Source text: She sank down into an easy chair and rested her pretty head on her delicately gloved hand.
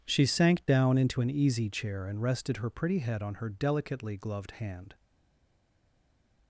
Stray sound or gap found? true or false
false